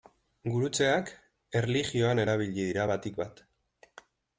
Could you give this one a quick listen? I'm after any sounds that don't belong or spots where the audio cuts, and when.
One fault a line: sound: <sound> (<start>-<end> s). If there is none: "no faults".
no faults